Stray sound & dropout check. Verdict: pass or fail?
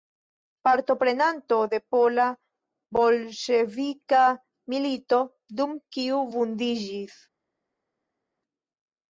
pass